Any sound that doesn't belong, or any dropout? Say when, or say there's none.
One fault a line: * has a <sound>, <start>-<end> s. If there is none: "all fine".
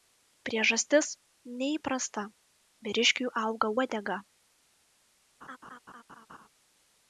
* has a laugh, 5.4-6.5 s